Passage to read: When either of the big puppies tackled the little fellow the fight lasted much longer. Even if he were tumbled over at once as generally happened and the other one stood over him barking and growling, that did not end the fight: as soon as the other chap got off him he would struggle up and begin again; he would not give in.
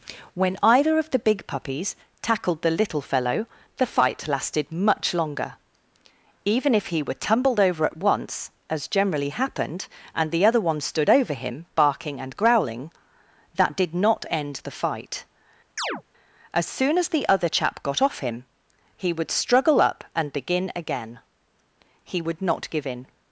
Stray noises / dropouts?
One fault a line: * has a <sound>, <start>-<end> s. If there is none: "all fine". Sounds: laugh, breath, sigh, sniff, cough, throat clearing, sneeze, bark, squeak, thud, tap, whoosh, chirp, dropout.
* has a chirp, 15.8-16.0 s